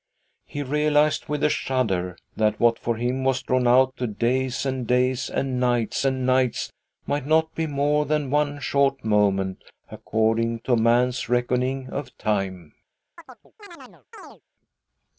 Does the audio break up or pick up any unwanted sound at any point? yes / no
yes